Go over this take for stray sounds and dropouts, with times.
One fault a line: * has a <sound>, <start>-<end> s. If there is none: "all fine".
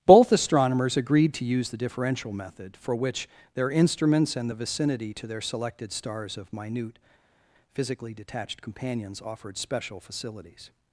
all fine